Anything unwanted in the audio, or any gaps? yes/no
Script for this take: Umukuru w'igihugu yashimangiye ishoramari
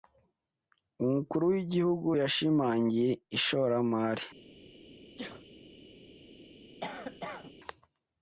yes